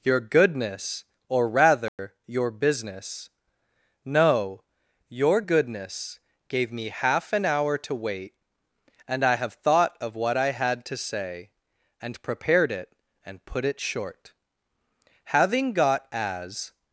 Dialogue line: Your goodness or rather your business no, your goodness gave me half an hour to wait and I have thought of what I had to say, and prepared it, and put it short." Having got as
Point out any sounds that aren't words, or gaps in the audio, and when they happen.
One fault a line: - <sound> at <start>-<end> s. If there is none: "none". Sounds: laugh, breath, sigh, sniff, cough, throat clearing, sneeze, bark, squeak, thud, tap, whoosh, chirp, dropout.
- dropout at 1.9-2.0 s